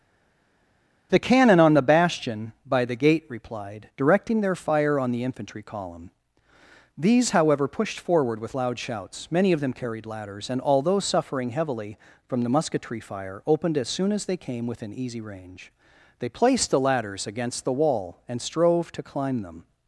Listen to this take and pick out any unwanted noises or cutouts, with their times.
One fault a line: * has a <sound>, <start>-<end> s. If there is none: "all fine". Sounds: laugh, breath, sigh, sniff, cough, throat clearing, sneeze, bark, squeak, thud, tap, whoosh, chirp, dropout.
all fine